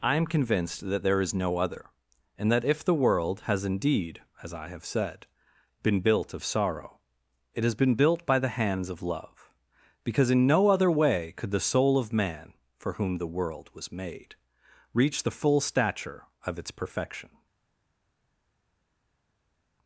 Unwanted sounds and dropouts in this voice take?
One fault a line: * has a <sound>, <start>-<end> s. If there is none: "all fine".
all fine